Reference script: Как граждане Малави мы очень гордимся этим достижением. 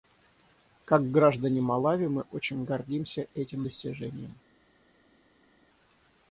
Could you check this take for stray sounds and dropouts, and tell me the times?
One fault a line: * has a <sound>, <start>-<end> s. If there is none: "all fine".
all fine